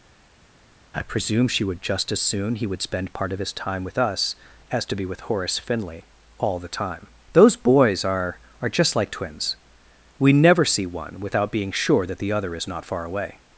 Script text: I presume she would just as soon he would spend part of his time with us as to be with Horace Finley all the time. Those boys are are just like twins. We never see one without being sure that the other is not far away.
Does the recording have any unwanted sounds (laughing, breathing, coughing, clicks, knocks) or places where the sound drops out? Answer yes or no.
no